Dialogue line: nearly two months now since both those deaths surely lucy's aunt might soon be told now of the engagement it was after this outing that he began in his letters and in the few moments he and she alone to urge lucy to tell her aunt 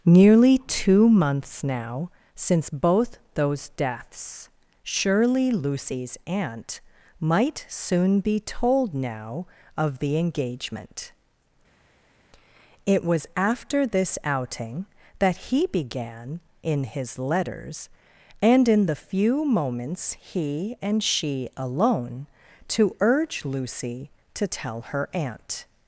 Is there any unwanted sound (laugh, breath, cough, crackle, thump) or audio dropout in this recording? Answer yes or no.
no